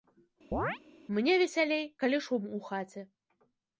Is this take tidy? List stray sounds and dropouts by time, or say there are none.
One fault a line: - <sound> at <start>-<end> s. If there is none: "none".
- chirp at 0.5-0.8 s